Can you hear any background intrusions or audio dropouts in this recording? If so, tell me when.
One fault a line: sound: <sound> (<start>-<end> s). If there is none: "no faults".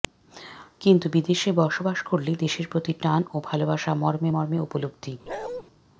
sound: bark (5.3-5.6 s)